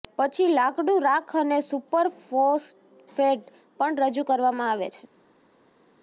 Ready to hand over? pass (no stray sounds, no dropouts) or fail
pass